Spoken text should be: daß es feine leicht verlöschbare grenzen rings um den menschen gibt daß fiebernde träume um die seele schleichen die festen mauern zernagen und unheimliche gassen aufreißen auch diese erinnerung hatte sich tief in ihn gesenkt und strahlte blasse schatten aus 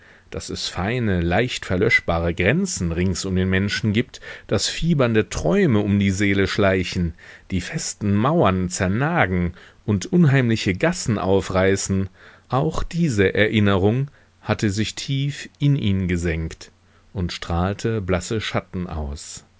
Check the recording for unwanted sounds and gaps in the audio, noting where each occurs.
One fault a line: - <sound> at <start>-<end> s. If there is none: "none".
none